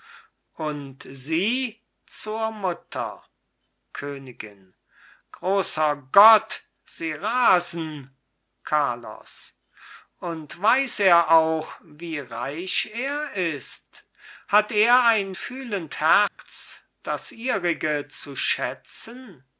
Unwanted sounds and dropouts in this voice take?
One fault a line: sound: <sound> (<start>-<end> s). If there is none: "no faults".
sound: dropout (16.3-16.4 s)